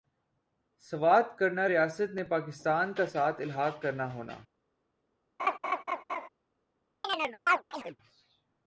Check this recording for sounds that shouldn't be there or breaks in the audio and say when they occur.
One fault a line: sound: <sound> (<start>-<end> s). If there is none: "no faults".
sound: laugh (5.4-6.3 s)
sound: chirp (7.0-8.0 s)